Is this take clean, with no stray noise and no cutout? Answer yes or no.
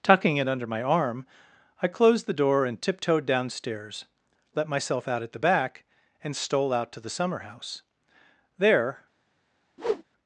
no